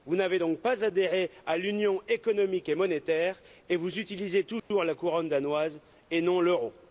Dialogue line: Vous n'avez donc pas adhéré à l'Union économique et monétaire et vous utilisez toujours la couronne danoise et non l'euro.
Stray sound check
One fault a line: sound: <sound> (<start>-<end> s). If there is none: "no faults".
sound: dropout (4.6-4.7 s)